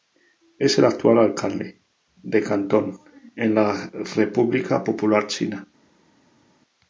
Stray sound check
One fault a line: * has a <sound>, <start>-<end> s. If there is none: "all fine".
all fine